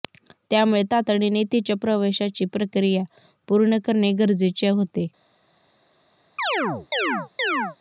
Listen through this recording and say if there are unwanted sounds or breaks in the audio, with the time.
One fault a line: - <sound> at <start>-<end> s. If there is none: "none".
- chirp at 6.4-7.8 s